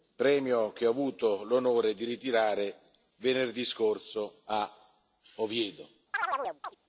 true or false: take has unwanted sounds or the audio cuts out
true